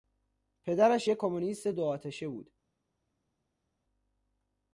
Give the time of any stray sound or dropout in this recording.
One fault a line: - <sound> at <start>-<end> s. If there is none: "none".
none